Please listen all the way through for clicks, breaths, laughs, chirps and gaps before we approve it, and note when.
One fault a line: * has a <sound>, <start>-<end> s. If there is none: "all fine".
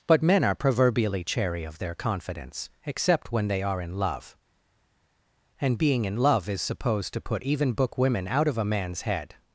all fine